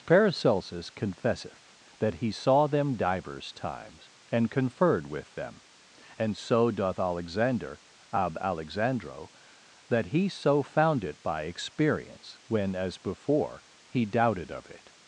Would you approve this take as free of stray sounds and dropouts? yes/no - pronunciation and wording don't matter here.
yes